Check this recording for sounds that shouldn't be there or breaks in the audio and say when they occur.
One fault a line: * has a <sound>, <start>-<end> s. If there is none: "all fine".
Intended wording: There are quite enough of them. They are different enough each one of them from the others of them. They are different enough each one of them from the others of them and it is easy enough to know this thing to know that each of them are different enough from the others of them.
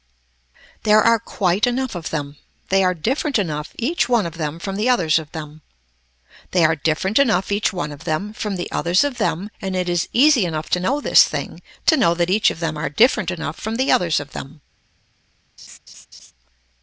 * has a laugh, 15.6-16.3 s